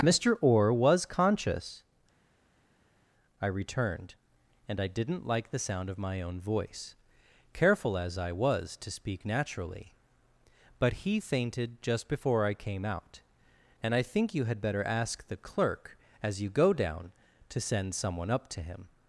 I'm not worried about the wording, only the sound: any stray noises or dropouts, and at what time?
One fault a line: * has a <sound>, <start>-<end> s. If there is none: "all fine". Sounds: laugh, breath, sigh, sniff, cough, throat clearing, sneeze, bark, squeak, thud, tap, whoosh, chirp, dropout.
all fine